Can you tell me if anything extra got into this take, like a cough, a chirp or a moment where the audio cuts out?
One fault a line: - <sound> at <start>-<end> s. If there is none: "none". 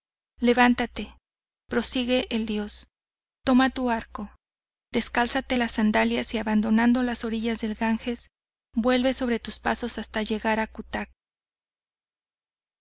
none